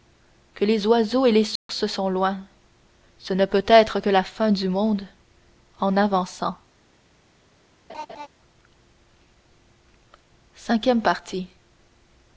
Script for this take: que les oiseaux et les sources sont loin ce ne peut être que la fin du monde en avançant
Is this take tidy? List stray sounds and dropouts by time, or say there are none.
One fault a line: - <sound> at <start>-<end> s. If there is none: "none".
- dropout at 1.6-1.7 s
- laugh at 7.9-8.3 s